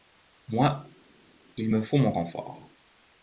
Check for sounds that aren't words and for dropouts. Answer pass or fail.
pass